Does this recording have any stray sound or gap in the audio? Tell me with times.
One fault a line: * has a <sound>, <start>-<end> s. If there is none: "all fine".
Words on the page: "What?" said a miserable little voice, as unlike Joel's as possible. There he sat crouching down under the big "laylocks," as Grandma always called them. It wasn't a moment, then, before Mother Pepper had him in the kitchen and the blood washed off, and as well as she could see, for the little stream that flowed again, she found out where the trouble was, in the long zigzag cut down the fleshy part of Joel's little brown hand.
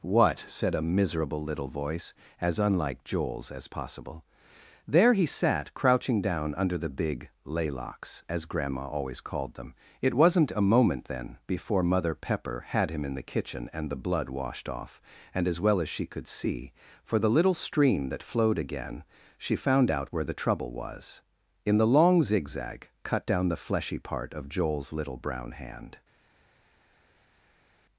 all fine